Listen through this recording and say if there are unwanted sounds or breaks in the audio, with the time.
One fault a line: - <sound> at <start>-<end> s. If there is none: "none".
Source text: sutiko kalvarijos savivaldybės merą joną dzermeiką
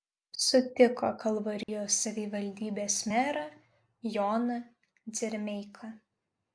- dropout at 1.6-1.7 s